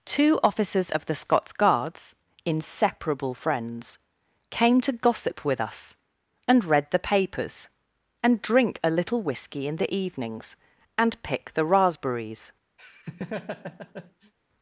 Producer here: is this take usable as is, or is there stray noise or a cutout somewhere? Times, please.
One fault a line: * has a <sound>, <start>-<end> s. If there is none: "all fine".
* has a laugh, 12.8-14.3 s